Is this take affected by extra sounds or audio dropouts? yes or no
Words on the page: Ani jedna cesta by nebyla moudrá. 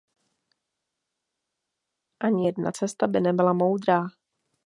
no